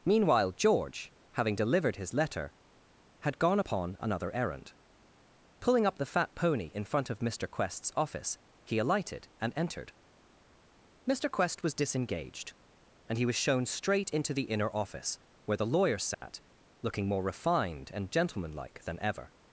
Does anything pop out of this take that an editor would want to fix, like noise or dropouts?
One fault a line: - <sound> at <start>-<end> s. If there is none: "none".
- dropout at 16.1-16.2 s